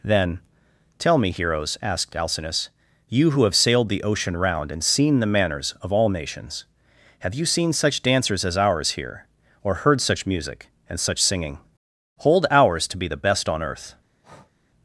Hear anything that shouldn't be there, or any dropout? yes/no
yes